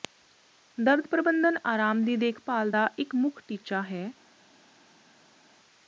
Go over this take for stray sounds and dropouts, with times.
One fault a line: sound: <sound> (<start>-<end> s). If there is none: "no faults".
no faults